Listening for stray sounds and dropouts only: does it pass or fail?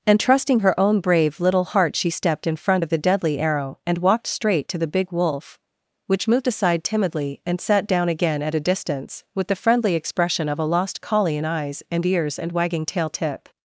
pass